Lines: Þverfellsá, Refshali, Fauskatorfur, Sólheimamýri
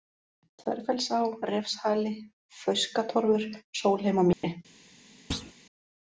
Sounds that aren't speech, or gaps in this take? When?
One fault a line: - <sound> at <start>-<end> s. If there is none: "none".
- dropout at 4.3-4.4 s
- thud at 5.3-5.5 s